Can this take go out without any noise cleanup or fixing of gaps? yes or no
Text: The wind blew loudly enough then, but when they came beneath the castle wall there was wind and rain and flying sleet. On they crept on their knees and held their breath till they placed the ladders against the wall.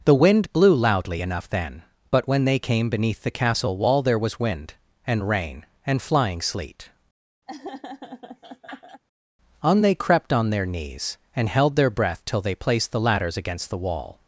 no